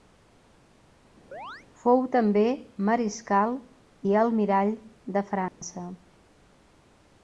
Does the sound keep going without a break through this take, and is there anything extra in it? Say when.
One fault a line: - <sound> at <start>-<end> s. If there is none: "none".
- chirp at 1.3-1.7 s
- dropout at 5.5-5.6 s